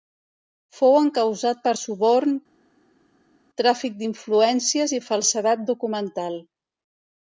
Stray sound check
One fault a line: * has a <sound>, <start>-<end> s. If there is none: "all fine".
all fine